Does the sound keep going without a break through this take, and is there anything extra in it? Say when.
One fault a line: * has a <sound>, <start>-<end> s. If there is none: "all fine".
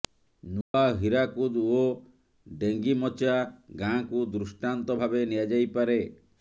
* has a dropout, 0.6-0.7 s